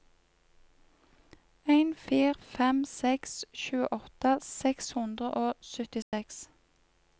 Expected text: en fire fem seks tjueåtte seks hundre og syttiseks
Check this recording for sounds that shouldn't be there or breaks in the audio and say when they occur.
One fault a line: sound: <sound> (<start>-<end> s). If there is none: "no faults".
sound: dropout (6.0-6.1 s)